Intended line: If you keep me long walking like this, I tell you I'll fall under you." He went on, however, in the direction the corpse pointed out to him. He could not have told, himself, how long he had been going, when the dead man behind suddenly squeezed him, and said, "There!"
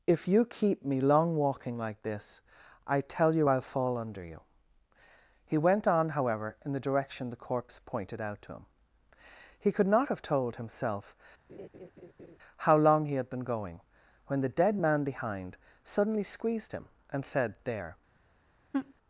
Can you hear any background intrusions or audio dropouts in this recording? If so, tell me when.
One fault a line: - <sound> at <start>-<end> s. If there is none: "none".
- laugh at 11.5-12.4 s
- laugh at 18.7-18.9 s